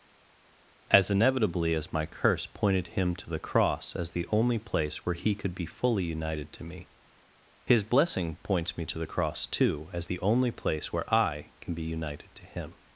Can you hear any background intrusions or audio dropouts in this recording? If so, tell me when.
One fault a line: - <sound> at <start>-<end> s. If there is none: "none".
none